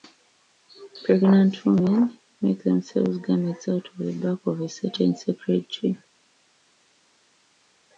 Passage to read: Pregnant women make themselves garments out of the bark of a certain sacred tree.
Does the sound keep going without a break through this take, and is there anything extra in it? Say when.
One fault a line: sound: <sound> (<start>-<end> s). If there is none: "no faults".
no faults